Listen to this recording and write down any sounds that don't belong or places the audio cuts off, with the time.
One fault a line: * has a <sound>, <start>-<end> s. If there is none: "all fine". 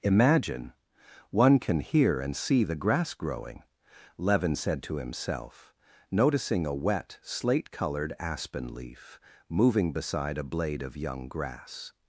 all fine